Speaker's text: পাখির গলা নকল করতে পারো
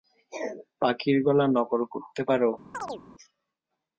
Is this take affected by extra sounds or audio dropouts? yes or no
yes